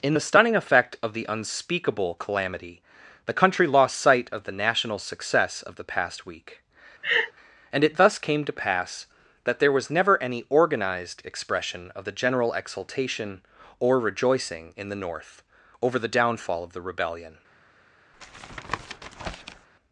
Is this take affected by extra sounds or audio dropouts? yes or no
yes